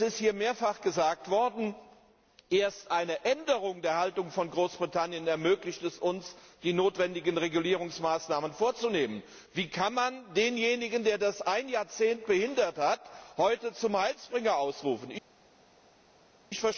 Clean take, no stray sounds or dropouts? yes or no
yes